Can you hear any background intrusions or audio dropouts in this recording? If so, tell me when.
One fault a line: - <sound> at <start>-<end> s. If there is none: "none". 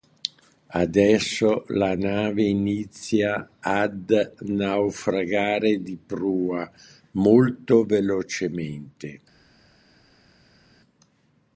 none